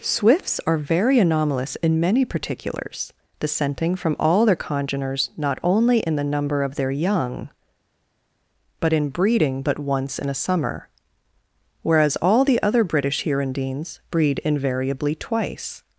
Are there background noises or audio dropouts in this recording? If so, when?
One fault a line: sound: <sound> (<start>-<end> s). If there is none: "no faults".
no faults